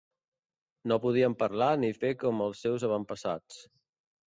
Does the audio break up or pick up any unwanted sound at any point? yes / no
no